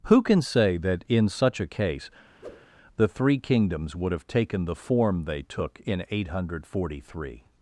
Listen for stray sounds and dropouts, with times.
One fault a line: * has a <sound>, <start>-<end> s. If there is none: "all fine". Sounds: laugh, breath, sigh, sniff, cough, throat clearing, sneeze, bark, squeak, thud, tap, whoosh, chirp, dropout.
* has a whoosh, 2.4-2.7 s